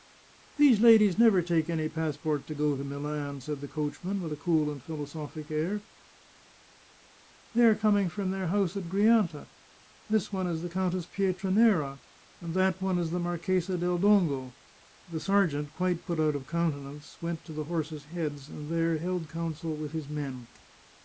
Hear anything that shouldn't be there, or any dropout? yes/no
no